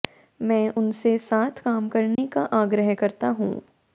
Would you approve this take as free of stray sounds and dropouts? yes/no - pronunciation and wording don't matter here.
no